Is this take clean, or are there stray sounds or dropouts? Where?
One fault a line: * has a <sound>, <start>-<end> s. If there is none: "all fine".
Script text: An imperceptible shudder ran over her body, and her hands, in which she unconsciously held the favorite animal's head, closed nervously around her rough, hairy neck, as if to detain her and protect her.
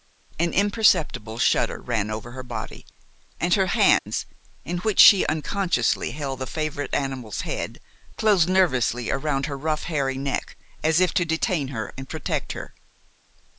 * has a dropout, 4.0-4.1 s